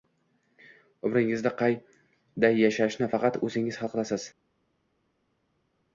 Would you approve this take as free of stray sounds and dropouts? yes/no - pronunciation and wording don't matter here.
yes